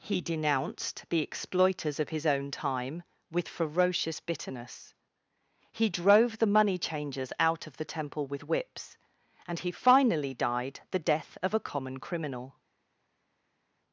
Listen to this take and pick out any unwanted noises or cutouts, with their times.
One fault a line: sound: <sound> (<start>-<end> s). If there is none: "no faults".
no faults